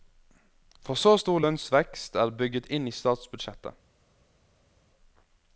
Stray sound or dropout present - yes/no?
no